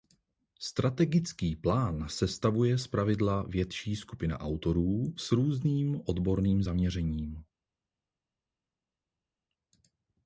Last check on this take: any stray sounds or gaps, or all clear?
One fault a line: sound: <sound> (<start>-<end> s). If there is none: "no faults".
no faults